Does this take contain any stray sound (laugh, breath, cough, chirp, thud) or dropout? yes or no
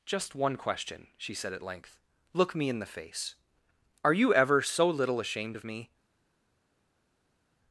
no